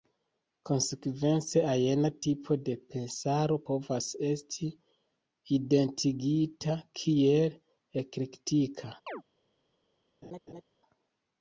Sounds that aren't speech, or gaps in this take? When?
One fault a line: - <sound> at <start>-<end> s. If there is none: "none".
- chirp at 9.1-9.2 s
- laugh at 10.2-10.6 s